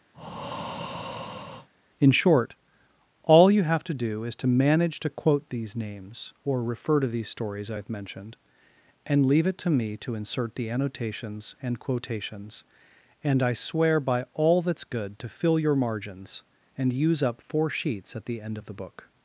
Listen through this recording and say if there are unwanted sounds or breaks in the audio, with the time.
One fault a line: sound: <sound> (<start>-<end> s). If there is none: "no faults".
sound: breath (0.1-1.7 s)